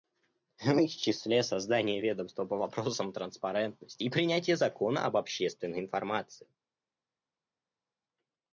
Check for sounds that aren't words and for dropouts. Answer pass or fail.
pass